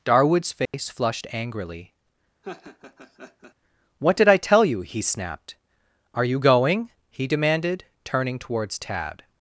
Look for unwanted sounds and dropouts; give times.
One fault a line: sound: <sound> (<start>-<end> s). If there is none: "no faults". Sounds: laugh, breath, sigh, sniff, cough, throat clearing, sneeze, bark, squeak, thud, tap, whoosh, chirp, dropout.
sound: dropout (0.7-0.7 s)
sound: laugh (2.4-3.5 s)